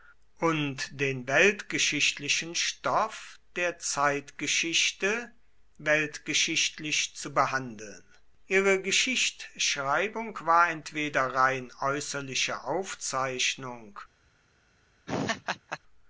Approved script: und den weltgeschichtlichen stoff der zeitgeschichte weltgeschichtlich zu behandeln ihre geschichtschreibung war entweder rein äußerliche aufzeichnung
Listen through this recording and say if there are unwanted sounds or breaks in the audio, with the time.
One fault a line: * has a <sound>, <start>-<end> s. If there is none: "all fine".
* has a laugh, 15.1-15.8 s